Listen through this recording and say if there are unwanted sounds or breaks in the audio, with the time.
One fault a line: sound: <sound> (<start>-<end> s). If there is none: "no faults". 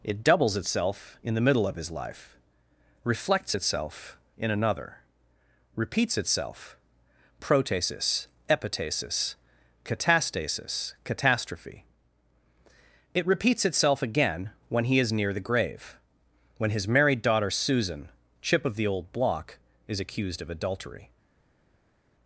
no faults